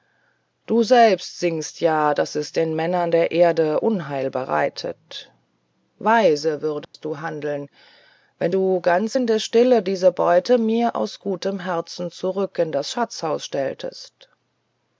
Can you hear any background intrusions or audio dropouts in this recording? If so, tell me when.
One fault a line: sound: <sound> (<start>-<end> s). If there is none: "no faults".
sound: dropout (6.8-6.9 s)